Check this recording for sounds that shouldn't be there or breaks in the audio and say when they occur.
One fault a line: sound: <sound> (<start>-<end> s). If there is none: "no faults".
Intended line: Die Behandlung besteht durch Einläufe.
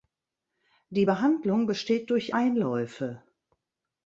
no faults